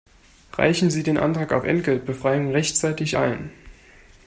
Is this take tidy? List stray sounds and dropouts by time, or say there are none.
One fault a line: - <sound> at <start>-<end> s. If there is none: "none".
none